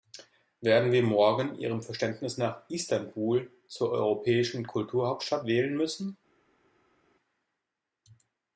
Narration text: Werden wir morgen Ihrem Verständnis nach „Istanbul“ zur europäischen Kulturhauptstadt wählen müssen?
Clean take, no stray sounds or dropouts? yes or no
yes